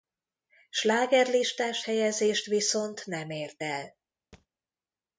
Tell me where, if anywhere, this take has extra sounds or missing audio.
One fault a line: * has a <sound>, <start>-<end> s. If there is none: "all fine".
* has a thud, 4.3-4.5 s